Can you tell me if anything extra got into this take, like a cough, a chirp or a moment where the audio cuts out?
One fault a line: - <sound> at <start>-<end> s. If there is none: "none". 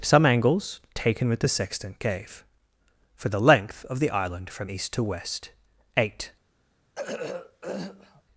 - throat clearing at 7.0-8.2 s